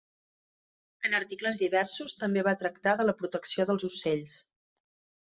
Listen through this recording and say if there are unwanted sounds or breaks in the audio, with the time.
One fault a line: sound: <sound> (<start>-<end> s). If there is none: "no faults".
no faults